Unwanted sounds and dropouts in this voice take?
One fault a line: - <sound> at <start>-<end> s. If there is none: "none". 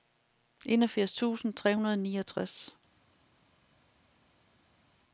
none